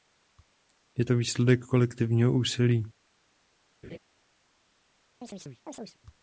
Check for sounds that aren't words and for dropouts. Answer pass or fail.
fail